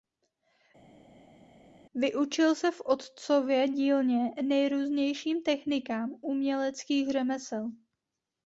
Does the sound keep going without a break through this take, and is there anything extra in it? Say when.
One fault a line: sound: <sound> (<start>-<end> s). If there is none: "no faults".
no faults